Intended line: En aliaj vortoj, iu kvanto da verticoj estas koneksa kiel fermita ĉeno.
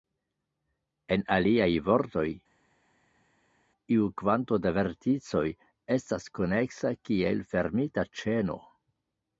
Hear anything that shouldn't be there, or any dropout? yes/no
no